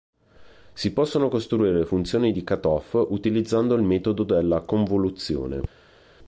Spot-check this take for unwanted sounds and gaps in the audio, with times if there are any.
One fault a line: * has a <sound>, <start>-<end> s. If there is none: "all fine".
all fine